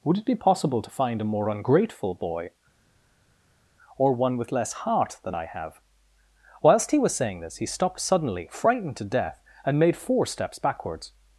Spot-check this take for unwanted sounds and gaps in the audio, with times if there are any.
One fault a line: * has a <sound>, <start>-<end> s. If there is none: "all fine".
all fine